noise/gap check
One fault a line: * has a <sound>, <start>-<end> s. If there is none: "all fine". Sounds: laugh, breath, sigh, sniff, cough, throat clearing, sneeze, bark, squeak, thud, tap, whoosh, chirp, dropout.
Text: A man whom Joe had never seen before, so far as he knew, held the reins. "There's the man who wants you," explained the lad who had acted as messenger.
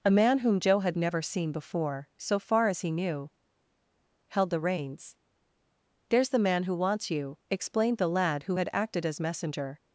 all fine